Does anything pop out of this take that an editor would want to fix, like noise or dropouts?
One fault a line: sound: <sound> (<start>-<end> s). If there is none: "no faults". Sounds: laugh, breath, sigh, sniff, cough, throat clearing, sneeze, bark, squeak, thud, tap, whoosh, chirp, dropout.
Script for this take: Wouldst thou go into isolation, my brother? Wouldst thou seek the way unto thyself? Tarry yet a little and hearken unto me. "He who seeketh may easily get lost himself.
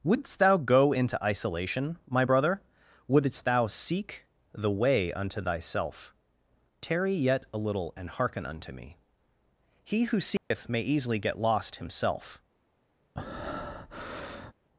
sound: dropout (10.4-10.5 s)
sound: breath (13.2-14.5 s)